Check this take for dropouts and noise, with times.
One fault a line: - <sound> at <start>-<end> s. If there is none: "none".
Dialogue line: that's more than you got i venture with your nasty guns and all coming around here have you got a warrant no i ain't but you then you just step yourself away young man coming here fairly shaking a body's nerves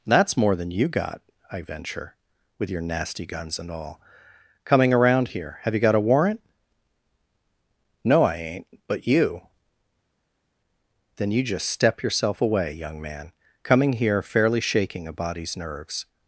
none